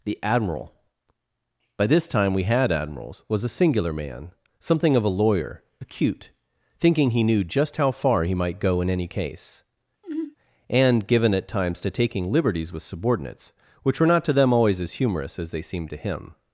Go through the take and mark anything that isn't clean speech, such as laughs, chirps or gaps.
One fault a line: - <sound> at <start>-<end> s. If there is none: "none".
- sigh at 10.0-10.4 s